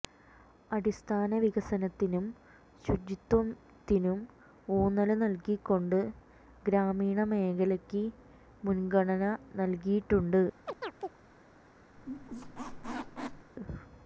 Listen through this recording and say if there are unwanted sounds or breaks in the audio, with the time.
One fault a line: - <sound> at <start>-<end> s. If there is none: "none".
- chirp at 10.7-11.2 s
- squeak at 12.0-13.5 s